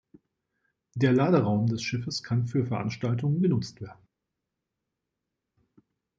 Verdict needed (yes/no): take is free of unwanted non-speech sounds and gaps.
yes